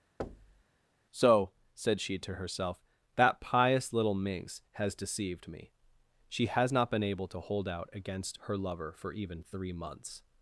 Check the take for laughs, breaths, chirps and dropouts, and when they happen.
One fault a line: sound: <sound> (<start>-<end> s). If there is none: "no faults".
sound: thud (0.2-0.6 s)